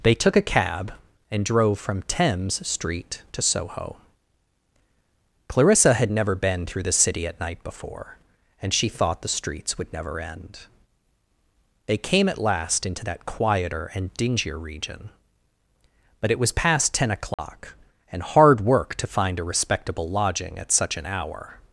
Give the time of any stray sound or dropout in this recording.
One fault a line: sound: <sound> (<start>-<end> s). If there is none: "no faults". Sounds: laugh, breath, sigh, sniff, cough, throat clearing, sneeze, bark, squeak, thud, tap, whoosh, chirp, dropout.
sound: dropout (17.3-17.4 s)